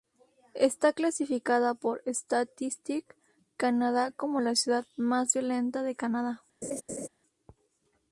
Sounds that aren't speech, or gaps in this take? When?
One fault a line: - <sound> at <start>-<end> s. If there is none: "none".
- laugh at 6.6-7.1 s